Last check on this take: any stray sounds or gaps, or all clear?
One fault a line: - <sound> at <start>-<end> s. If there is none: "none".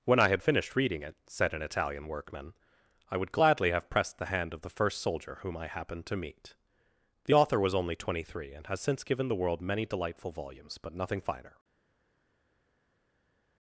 none